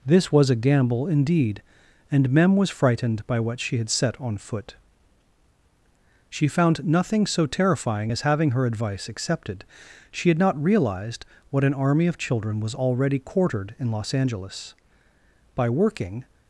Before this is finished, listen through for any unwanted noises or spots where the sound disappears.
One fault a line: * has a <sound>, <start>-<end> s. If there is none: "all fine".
all fine